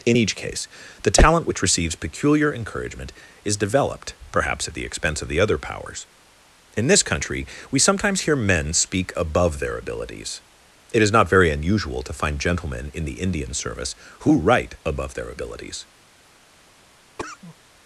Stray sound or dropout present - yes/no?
yes